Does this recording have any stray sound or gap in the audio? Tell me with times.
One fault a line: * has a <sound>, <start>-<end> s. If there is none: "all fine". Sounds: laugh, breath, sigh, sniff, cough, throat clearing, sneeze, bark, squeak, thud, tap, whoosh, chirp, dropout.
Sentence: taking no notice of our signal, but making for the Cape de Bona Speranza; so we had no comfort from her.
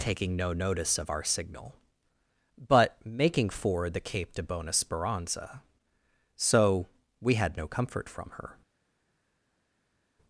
all fine